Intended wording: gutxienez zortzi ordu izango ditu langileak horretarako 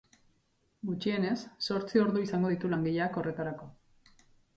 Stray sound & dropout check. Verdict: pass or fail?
pass